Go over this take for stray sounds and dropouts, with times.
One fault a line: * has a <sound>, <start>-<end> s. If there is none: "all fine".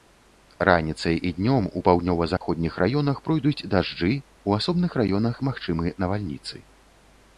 * has a dropout, 2.4-2.4 s